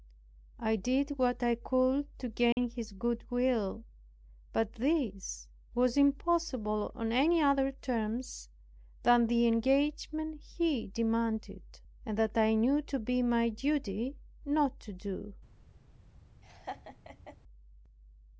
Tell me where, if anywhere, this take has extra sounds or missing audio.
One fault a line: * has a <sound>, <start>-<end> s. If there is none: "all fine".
* has a dropout, 2.5-2.6 s
* has a laugh, 16.4-17.4 s